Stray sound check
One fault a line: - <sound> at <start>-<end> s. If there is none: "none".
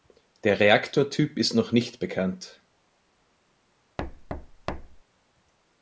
- thud at 4.0-5.0 s